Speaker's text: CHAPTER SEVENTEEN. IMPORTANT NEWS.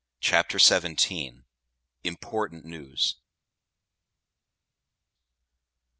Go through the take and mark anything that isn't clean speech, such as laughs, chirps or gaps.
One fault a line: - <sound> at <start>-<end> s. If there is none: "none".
none